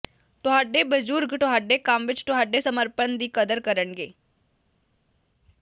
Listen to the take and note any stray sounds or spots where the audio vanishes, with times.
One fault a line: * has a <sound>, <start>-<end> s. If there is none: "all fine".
all fine